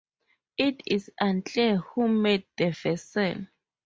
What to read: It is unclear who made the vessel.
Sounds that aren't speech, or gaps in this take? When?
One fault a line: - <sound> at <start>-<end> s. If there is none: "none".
none